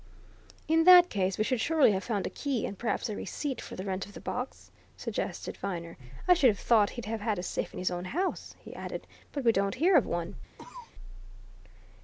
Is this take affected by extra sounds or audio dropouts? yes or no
yes